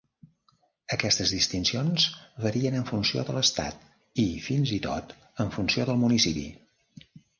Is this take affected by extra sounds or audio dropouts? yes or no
no